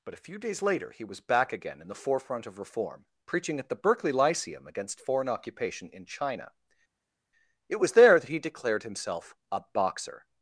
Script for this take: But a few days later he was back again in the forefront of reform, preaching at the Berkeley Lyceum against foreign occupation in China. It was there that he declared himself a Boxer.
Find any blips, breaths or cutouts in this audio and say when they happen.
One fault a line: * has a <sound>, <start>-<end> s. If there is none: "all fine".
all fine